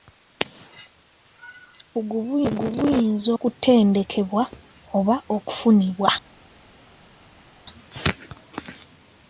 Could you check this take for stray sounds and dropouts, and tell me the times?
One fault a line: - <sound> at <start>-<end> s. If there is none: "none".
none